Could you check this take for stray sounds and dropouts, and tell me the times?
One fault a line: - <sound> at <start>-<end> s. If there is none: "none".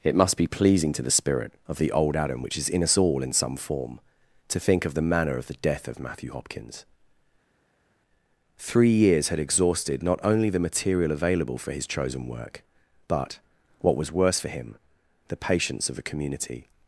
none